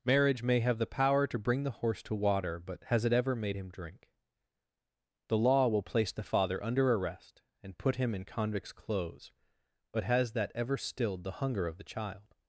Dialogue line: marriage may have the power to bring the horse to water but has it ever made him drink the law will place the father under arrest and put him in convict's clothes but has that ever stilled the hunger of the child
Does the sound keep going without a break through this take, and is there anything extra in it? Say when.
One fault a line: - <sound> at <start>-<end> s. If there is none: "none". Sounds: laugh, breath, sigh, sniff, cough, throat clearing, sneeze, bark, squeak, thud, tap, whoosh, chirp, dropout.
none